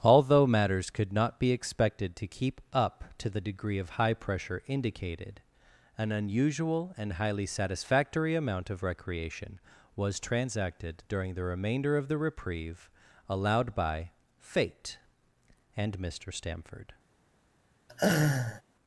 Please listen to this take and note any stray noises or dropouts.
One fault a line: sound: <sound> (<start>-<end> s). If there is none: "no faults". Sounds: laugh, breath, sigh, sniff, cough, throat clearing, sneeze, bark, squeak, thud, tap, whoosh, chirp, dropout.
sound: laugh (17.9-18.6 s)